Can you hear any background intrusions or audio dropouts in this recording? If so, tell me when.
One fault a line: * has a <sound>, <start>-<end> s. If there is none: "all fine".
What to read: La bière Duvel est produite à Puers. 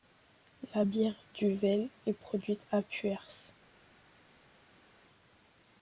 all fine